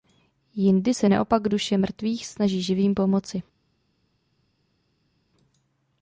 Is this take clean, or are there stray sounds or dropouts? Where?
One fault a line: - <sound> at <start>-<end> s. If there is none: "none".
none